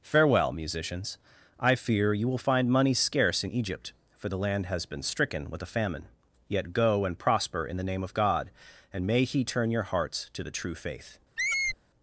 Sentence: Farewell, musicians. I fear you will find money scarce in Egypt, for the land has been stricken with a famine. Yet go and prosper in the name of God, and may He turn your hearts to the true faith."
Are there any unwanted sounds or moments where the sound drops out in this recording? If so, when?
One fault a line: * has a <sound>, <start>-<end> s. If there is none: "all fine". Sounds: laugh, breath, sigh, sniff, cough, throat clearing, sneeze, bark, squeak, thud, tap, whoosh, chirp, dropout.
* has a squeak, 11.4-11.8 s